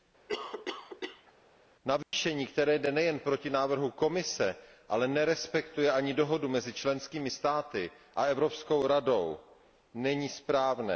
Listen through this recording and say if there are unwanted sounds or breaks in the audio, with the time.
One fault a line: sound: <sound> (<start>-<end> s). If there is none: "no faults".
sound: cough (0.3-1.3 s)
sound: dropout (2.0-2.1 s)